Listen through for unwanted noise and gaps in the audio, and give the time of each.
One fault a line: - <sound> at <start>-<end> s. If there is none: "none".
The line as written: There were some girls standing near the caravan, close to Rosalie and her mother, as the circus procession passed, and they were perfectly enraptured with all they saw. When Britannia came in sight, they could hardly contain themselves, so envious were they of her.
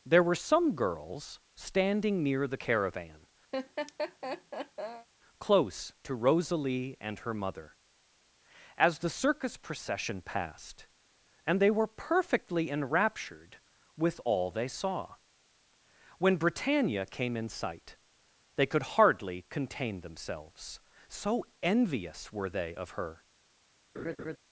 - laugh at 3.5-5.1 s
- laugh at 23.9-24.4 s